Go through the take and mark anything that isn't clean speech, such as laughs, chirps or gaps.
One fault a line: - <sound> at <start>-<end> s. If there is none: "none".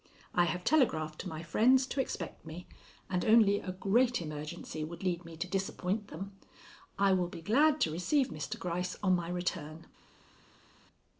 none